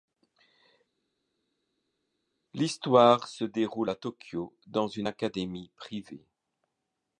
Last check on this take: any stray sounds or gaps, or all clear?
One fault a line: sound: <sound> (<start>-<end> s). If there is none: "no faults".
no faults